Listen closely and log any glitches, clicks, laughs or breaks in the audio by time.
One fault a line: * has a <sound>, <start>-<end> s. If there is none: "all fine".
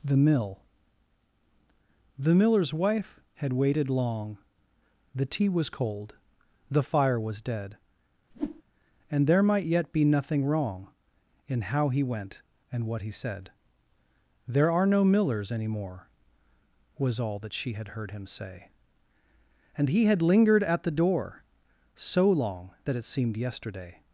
* has a whoosh, 8.3-8.6 s